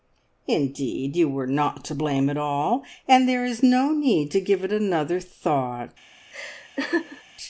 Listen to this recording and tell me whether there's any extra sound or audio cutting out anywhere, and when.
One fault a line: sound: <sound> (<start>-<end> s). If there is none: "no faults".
sound: laugh (6.3-7.2 s)